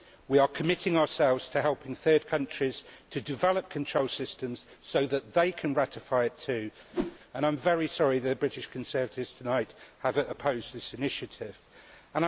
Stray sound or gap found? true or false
true